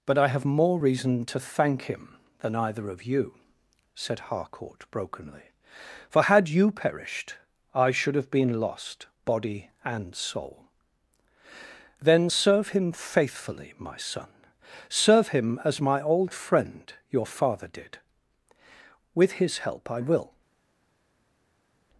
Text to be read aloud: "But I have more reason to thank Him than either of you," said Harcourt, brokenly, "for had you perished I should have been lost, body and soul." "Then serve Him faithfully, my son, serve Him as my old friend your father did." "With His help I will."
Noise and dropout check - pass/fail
pass